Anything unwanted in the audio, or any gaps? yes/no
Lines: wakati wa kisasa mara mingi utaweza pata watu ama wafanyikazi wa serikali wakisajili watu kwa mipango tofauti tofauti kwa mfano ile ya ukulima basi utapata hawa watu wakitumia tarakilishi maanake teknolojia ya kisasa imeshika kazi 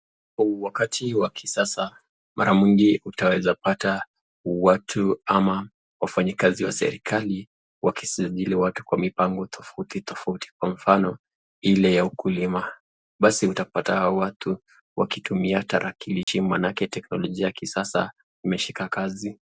yes